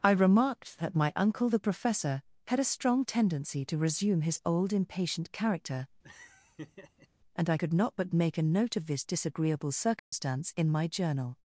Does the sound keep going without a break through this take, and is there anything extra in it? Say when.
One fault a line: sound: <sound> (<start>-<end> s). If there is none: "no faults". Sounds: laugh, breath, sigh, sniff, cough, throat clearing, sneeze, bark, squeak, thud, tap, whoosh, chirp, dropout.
sound: laugh (6.0-7.1 s)
sound: dropout (10.0-10.1 s)